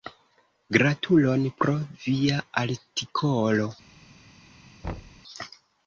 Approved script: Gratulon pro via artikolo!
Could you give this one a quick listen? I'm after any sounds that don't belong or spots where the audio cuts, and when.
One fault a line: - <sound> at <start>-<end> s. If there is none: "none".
- thud at 4.8-5.2 s